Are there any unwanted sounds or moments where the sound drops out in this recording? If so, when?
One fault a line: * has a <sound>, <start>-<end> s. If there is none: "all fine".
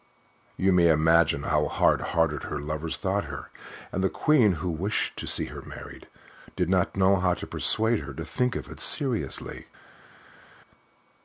all fine